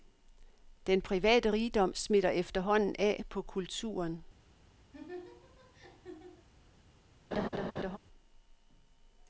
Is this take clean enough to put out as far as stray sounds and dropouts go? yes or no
no